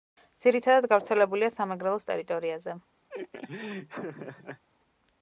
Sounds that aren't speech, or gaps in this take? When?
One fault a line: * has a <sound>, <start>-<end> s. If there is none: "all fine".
* has a laugh, 3.1-4.6 s